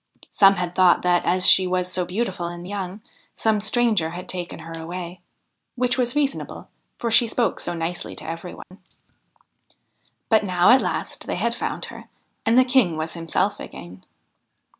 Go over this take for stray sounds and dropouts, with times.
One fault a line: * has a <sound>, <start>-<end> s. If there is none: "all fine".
* has a dropout, 8.6-8.7 s